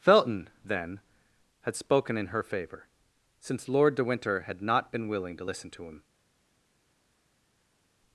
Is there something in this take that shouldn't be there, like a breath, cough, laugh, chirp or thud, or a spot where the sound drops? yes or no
no